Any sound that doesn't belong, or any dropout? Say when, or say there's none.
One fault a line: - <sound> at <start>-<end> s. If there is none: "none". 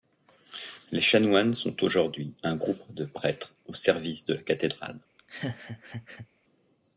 - laugh at 5.2-6.3 s